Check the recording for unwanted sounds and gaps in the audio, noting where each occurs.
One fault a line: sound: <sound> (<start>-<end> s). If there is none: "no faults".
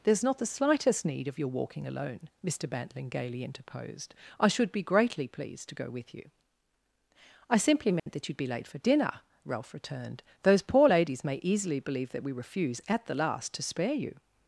sound: dropout (8.0-8.1 s)